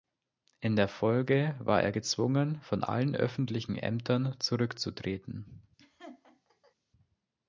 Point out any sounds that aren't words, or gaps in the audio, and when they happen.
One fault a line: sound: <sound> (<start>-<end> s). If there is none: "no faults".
sound: laugh (5.8-6.8 s)